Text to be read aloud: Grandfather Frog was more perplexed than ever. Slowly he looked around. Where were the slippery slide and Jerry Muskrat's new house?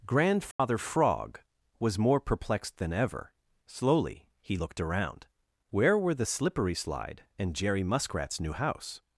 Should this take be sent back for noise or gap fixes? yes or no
yes